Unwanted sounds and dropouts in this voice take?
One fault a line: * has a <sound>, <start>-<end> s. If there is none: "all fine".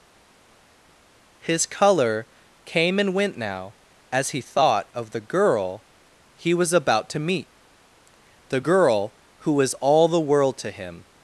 all fine